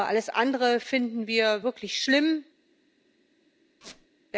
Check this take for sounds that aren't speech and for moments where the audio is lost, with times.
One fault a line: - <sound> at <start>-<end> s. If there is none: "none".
- squeak at 3.8-4.1 s